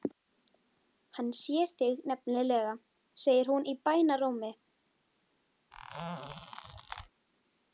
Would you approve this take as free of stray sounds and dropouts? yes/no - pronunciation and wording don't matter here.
no